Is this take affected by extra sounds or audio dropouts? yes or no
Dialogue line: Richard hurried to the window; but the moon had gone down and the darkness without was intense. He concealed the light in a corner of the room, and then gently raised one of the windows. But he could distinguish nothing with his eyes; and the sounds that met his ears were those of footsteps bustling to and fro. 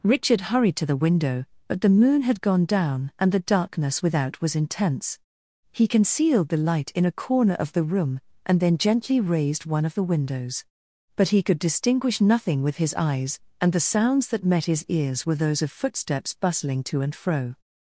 no